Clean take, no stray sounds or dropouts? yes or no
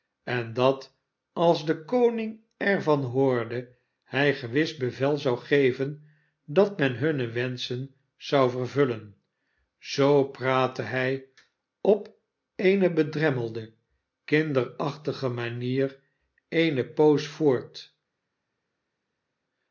yes